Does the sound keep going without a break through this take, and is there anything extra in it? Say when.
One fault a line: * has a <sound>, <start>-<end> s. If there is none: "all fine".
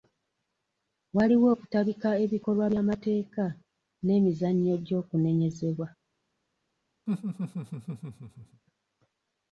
* has a laugh, 7.1-8.6 s